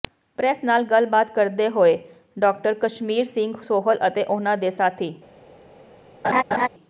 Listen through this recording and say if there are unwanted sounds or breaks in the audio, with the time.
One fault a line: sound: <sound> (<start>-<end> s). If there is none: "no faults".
sound: laugh (6.2-6.7 s)